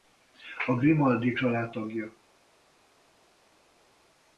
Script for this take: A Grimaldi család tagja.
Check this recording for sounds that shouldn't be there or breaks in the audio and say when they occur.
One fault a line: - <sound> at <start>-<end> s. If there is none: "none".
none